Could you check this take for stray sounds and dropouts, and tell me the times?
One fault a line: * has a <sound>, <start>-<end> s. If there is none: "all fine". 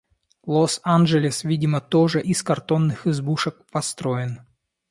all fine